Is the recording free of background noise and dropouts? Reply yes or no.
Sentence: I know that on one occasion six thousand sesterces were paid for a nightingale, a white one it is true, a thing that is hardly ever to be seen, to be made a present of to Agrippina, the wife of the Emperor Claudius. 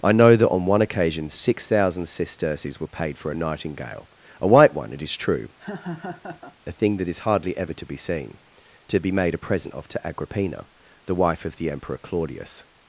no